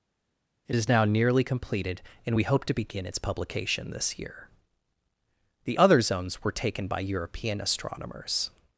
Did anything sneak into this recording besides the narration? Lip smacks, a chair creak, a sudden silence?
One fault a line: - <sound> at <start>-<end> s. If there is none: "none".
none